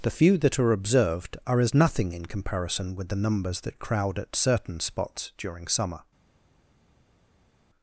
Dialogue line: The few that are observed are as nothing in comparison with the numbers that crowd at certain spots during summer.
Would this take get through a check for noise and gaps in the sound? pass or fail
pass